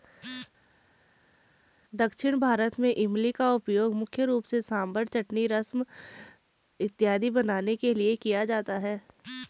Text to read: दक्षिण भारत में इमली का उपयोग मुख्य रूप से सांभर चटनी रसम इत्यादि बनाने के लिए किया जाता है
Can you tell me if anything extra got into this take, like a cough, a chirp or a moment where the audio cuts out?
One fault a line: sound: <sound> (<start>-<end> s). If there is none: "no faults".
no faults